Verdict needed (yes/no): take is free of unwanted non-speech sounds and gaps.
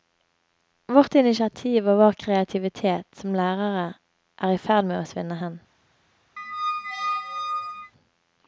no